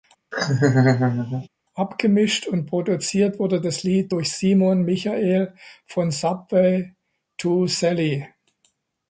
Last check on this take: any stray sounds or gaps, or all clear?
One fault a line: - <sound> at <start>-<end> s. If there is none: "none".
- laugh at 0.3-1.5 s